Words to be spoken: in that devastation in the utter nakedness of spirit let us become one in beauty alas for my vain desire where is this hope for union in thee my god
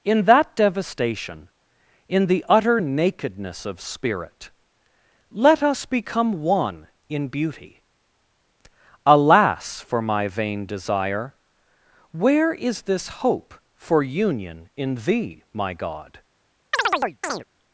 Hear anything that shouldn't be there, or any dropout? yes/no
yes